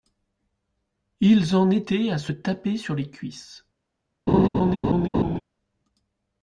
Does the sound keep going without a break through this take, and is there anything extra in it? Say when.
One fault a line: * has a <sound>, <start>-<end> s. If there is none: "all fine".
* has a laugh, 4.3-5.4 s